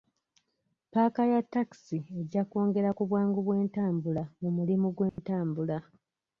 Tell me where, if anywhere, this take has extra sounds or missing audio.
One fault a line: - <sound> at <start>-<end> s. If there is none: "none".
- dropout at 5.1-5.2 s